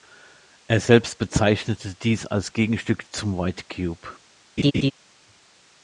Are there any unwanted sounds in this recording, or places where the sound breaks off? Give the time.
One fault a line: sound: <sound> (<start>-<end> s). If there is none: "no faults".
sound: laugh (4.6-4.9 s)